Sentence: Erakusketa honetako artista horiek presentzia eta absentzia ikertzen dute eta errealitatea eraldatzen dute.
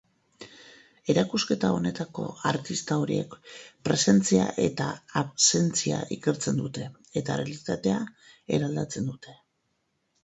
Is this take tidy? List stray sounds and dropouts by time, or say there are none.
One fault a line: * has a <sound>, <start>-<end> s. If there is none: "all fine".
all fine